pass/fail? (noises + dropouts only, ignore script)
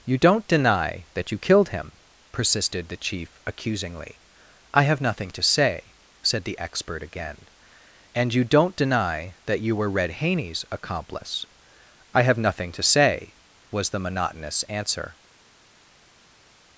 pass